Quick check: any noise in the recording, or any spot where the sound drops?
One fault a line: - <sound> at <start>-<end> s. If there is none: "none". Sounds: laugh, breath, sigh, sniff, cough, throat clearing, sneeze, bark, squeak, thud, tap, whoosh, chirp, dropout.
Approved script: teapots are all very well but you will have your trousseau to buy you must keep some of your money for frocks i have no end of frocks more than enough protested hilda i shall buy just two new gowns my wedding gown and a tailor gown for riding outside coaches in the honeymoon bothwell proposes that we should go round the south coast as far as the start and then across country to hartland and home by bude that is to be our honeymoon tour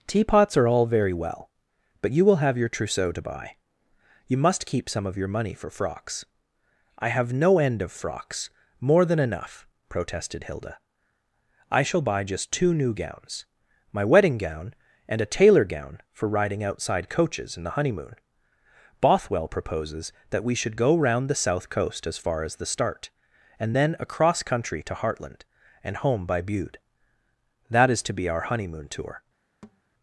- thud at 29.6-29.8 s